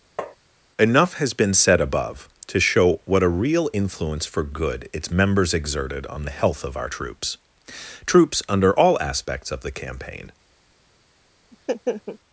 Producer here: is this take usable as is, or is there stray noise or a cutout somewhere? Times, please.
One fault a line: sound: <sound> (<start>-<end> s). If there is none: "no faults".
sound: tap (0.2-0.4 s)
sound: laugh (11.5-12.2 s)